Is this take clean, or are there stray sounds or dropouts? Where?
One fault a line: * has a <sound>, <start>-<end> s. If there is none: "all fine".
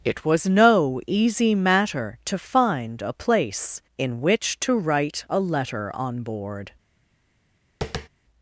* has a tap, 7.8-8.1 s